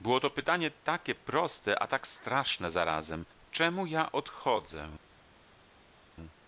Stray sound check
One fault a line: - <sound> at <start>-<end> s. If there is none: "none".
none